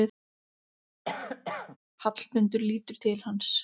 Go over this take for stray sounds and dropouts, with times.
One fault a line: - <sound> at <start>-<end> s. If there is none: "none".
- cough at 1.0-1.8 s